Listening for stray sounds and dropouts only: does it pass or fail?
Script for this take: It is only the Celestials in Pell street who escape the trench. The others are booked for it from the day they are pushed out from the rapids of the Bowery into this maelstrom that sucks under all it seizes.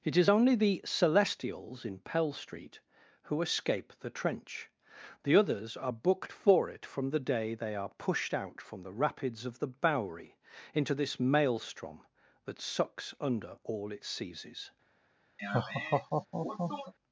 fail